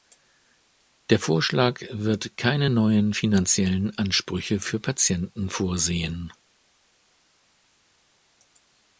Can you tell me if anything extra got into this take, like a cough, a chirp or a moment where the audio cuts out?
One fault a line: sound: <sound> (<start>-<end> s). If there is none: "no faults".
no faults